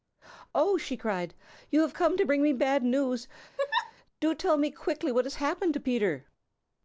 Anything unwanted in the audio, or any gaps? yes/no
yes